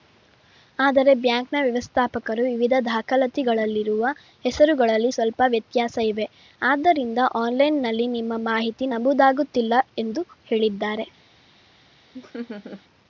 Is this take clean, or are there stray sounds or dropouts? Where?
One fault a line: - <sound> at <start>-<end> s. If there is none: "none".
- laugh at 12.1-12.8 s